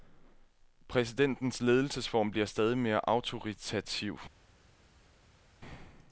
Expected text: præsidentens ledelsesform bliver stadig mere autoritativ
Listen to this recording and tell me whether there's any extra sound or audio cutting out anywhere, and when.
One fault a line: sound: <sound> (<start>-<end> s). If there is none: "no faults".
no faults